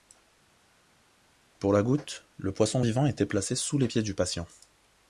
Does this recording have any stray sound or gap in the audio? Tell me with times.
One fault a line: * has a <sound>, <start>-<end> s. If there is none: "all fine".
all fine